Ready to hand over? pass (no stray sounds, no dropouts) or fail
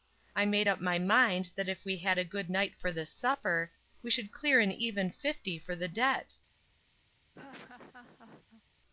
fail